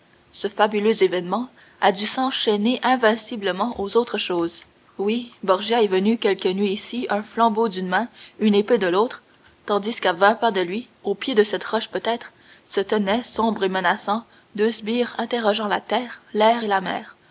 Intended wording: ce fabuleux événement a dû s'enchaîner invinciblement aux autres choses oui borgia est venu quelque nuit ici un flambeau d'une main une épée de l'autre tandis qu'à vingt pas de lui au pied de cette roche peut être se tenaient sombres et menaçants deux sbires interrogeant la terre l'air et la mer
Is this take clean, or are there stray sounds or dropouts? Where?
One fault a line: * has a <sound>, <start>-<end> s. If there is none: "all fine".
all fine